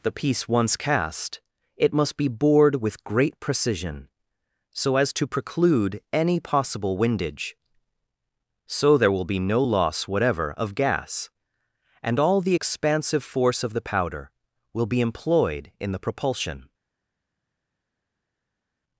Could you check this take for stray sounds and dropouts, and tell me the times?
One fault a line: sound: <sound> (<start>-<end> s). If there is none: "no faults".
no faults